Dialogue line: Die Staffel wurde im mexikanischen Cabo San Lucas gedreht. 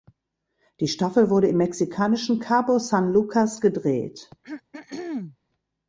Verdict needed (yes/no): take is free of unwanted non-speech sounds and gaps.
no